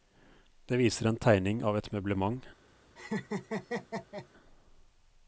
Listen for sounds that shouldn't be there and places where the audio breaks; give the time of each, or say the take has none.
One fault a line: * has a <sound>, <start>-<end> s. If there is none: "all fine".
* has a laugh, 3.0-4.3 s